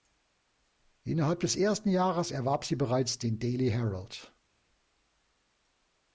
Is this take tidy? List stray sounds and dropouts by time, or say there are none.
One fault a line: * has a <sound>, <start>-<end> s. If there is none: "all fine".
all fine